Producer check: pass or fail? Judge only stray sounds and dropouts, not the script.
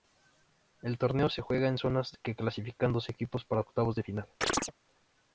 fail